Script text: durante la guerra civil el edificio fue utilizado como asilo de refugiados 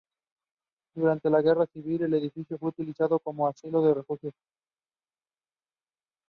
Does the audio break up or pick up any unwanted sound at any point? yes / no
no